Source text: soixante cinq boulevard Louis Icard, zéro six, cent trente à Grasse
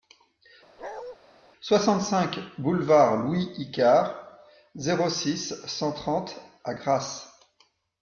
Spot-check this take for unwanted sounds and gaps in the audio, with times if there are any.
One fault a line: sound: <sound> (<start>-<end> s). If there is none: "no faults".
sound: bark (0.8-1.2 s)